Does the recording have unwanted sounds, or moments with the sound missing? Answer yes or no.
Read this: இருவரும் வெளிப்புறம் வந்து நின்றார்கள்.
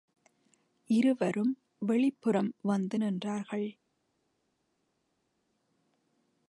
no